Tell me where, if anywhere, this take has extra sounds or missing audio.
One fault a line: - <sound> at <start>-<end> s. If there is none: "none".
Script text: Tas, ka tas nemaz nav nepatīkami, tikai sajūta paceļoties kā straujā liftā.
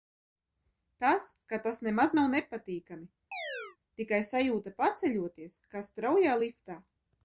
- chirp at 3.3-3.8 s